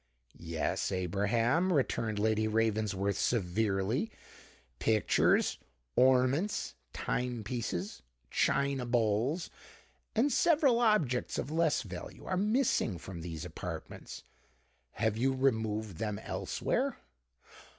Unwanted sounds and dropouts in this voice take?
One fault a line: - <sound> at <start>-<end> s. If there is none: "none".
none